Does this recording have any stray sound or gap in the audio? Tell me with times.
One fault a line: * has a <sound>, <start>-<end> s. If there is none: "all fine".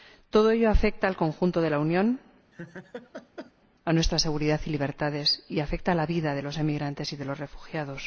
* has a laugh, 2.5-3.5 s